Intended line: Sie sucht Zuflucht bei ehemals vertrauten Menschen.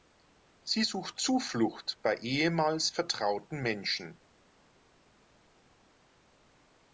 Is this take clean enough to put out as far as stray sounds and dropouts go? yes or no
yes